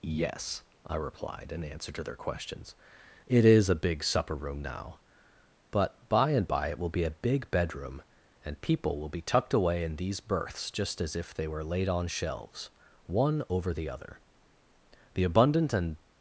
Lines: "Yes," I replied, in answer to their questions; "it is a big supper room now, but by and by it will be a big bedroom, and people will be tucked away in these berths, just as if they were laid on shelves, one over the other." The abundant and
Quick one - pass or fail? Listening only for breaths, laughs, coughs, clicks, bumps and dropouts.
pass